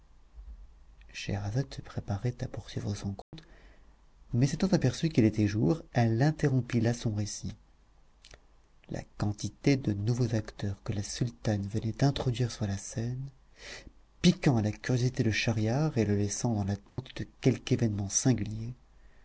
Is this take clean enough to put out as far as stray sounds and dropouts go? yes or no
no